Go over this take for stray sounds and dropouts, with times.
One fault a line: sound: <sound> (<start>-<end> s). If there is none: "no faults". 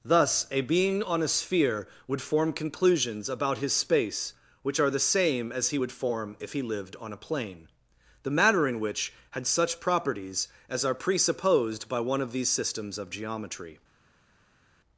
no faults